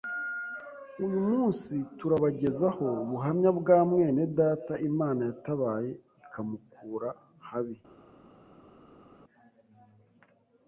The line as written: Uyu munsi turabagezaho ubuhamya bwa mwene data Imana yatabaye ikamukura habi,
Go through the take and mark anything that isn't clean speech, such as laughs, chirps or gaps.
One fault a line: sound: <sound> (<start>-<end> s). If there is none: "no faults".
no faults